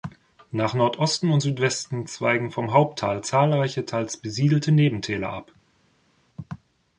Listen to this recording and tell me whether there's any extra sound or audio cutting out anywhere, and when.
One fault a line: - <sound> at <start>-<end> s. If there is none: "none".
none